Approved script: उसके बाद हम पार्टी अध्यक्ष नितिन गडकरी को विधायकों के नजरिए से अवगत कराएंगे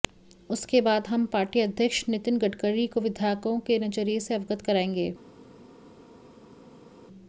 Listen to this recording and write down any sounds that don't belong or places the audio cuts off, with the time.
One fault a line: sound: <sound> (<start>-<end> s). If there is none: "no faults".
no faults